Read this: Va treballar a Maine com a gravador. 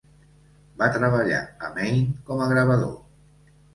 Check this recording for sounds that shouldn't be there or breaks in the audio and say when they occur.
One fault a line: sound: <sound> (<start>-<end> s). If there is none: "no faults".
no faults